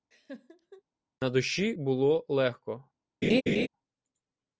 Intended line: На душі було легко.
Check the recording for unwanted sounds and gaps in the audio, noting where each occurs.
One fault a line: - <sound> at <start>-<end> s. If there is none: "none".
- laugh at 0.1-0.8 s
- laugh at 3.2-3.7 s